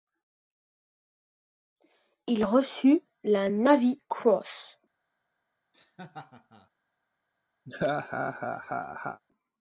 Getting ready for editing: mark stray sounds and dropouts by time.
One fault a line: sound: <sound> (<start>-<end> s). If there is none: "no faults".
sound: laugh (5.7-6.7 s)
sound: laugh (7.7-9.2 s)